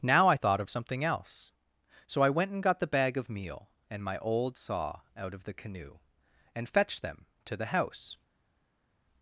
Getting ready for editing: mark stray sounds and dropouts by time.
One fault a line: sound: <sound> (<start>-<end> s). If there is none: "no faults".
no faults